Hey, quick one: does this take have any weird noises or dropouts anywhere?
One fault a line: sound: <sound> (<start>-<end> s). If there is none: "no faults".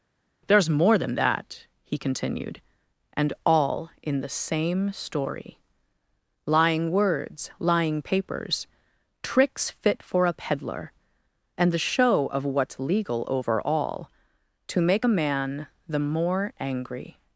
no faults